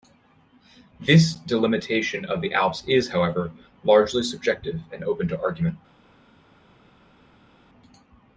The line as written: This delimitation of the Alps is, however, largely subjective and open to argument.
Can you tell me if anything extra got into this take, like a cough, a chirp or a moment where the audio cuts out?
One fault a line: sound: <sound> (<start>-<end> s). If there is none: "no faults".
no faults